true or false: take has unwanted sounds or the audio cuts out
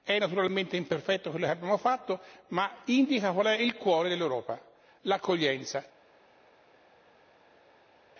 false